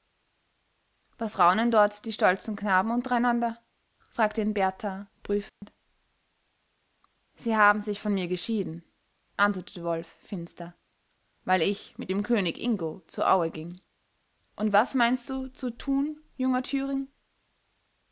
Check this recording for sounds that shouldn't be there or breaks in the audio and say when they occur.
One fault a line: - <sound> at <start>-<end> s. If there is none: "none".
- dropout at 5.5-5.6 s